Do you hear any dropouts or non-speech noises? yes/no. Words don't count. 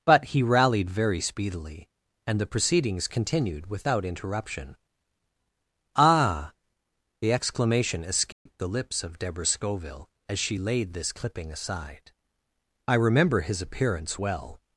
yes